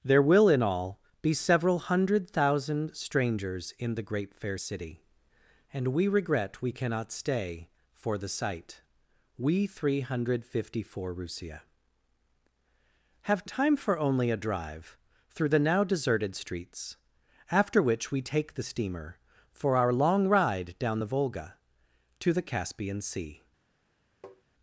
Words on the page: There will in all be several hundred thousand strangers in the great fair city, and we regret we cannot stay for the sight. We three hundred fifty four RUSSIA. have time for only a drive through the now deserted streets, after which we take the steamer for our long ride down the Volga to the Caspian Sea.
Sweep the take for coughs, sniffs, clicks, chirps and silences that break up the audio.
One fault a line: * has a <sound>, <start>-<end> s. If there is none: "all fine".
* has a tap, 24.2-24.4 s